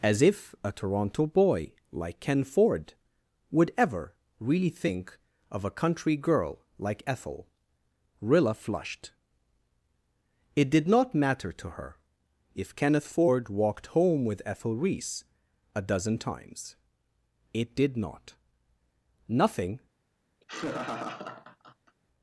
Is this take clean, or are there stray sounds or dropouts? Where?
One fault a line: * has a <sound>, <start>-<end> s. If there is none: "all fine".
* has a laugh, 20.4-22.0 s